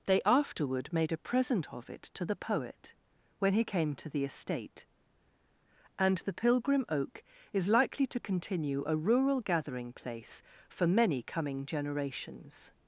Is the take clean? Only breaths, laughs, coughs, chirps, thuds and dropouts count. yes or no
yes